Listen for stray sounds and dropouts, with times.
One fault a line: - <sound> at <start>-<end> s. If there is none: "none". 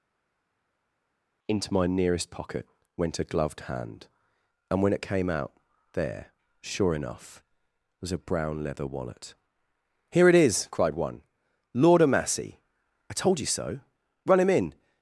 none